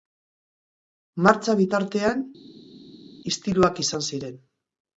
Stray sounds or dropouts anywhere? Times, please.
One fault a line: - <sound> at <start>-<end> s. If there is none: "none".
none